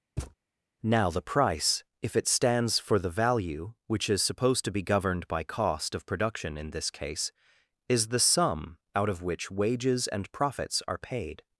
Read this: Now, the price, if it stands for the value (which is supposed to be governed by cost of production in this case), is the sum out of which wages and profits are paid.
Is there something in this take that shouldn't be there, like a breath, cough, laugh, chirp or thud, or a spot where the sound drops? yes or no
yes